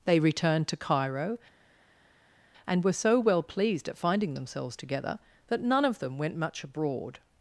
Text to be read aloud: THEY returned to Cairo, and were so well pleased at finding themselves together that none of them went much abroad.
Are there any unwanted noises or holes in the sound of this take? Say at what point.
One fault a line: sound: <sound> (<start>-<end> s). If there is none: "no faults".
no faults